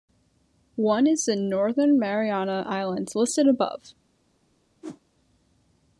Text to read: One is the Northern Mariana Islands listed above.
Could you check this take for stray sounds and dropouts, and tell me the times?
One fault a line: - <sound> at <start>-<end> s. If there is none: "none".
- whoosh at 4.8-5.0 s